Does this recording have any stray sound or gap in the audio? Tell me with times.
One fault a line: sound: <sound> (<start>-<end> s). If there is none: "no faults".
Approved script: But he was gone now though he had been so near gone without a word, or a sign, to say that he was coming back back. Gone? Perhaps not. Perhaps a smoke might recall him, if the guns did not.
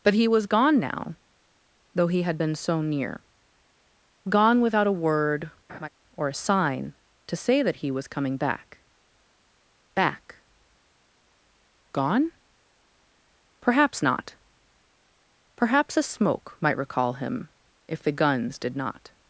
sound: laugh (5.7-5.9 s)